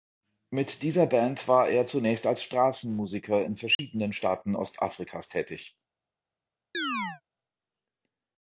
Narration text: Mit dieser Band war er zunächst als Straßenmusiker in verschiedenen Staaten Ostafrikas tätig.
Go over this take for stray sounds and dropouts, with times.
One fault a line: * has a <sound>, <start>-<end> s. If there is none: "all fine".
* has a dropout, 3.7-3.8 s
* has a chirp, 6.7-7.2 s